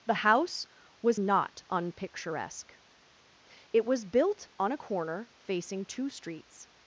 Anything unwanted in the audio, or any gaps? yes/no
no